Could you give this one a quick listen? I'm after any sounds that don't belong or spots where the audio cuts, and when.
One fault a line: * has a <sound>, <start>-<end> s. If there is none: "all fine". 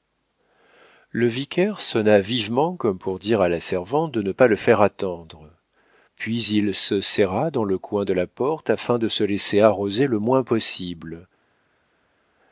all fine